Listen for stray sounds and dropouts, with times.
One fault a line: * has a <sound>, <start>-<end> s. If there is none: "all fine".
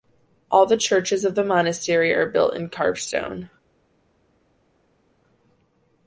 all fine